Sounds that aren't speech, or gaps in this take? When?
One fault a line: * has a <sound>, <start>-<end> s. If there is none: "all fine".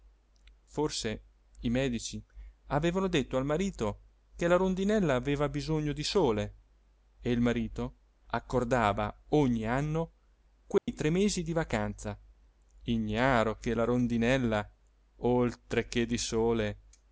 * has a dropout, 10.8-10.9 s